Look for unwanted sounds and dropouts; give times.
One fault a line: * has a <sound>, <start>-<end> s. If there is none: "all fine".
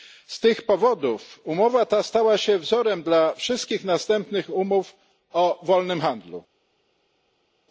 all fine